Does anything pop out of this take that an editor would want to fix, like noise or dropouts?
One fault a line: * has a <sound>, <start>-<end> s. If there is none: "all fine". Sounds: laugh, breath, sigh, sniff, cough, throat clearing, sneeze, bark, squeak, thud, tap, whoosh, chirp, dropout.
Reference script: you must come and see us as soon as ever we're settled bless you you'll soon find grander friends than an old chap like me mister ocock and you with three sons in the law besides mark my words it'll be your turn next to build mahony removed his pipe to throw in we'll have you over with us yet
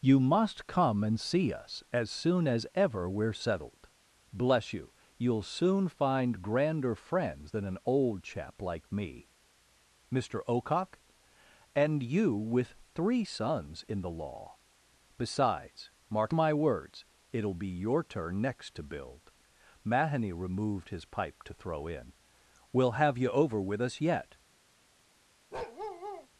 * has a bark, 25.5-26.3 s